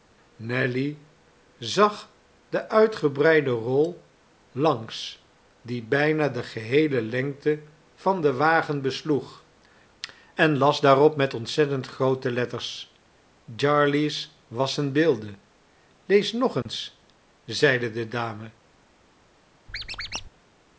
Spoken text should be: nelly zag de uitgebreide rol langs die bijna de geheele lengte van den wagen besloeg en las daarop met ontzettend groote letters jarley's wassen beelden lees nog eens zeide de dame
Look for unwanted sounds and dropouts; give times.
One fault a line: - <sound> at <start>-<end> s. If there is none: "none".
- dropout at 16.6-16.7 s
- squeak at 19.7-20.3 s